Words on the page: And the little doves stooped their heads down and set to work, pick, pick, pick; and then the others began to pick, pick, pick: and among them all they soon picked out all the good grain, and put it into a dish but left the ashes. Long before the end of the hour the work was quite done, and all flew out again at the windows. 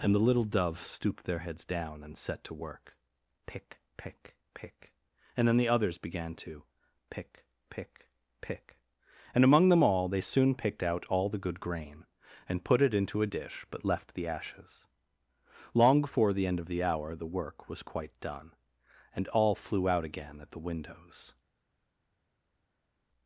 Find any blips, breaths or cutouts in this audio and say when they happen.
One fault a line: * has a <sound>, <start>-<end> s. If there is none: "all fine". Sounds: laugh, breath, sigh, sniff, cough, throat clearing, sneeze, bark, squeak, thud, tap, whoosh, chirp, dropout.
all fine